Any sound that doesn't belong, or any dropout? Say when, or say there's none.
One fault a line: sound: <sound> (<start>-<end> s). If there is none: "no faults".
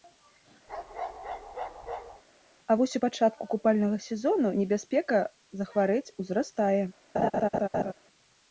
sound: bark (0.7-2.2 s)
sound: laugh (7.1-7.9 s)